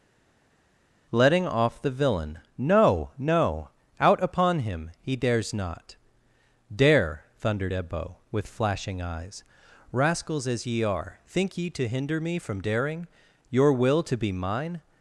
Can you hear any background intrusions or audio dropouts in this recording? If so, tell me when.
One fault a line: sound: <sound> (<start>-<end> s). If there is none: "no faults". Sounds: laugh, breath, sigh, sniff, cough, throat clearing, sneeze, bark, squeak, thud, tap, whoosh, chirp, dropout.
no faults